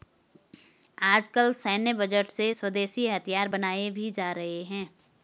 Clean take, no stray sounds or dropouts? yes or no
yes